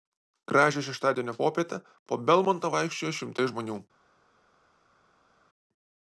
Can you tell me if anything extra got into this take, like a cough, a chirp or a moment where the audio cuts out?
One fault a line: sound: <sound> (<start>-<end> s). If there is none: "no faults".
no faults